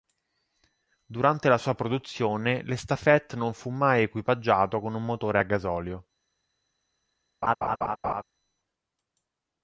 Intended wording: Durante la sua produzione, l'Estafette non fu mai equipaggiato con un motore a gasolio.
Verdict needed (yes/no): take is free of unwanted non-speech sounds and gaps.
no